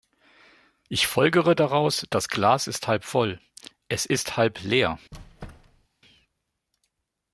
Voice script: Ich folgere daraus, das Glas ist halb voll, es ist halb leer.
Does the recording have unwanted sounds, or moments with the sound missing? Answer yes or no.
yes